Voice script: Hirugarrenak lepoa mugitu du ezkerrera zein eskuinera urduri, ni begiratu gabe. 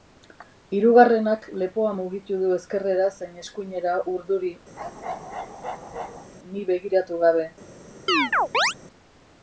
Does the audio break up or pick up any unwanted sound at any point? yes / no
yes